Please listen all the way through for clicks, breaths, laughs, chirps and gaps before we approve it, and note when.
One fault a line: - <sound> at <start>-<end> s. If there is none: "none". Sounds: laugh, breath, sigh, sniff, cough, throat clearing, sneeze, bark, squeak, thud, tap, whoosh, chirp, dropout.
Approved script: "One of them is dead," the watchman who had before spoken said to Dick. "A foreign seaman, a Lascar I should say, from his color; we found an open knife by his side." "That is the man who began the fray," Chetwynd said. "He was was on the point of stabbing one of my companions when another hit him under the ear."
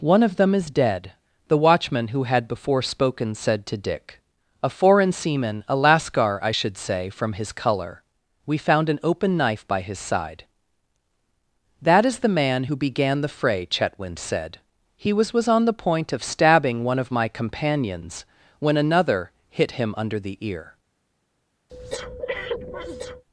- breath at 21.7-23.2 s